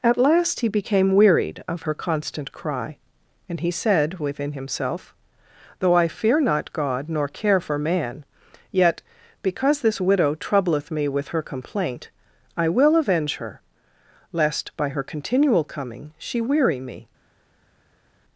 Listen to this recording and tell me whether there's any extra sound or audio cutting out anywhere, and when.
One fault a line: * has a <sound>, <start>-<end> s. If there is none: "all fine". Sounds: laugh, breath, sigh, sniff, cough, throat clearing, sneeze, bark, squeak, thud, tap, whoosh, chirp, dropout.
all fine